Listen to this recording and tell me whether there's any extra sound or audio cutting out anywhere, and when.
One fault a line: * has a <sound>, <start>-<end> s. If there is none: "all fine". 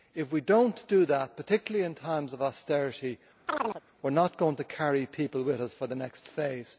* has a chirp, 3.5-3.8 s